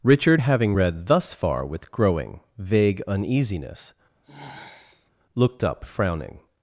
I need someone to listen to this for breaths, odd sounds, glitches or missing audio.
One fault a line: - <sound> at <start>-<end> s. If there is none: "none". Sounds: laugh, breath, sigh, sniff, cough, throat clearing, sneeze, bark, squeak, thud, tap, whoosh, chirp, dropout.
- sigh at 4.2-5.1 s